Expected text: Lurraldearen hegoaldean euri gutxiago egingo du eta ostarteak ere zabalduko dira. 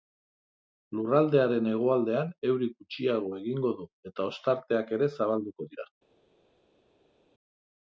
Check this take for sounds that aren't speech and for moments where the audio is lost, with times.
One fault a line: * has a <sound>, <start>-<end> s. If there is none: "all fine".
all fine